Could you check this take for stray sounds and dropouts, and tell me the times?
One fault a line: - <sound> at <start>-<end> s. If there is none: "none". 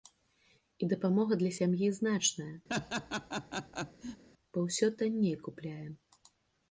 - laugh at 2.7-4.2 s